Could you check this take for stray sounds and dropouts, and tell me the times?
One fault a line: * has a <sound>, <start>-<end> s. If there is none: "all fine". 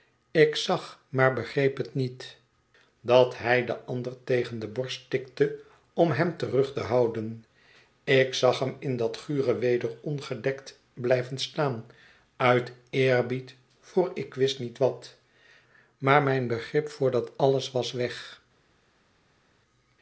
all fine